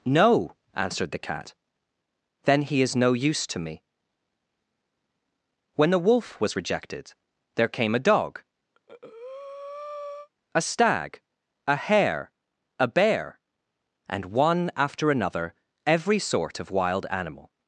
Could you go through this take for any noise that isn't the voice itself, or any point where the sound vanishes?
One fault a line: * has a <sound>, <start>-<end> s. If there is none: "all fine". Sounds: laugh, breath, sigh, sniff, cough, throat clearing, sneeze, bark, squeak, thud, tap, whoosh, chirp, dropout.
* has a breath, 8.7-10.3 s